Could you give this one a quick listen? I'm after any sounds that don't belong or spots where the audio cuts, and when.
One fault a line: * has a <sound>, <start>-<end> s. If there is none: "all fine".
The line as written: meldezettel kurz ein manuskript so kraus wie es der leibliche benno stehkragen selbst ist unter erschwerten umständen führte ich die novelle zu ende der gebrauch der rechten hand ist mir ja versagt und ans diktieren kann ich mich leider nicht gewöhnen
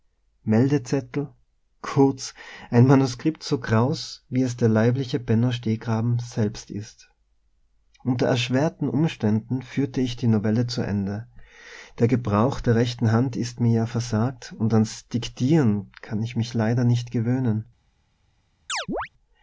* has a chirp, 18.7-19.1 s